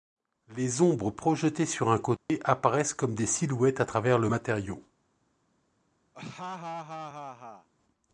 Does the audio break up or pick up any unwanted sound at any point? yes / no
yes